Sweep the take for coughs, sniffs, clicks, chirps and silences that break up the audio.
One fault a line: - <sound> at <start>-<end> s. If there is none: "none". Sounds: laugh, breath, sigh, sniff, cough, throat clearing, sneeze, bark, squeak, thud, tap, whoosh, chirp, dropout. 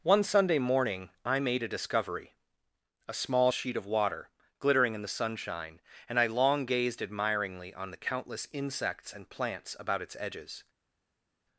none